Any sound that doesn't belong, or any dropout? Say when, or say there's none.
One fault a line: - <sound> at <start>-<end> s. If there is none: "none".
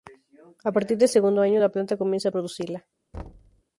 - thud at 3.1-3.6 s